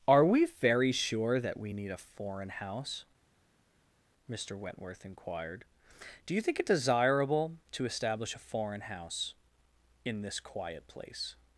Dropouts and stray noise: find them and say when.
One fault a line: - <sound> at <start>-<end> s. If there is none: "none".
none